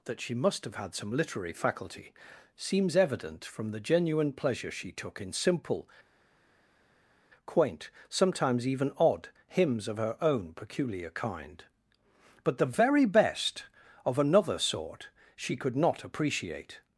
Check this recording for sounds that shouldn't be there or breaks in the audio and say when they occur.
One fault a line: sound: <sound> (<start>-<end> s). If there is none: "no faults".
no faults